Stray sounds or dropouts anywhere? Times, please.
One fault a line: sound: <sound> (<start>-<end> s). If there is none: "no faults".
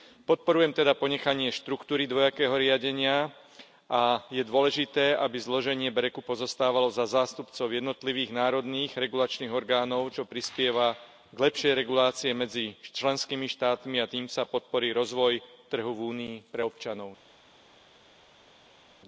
no faults